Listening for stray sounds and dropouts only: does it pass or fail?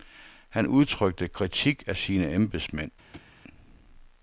fail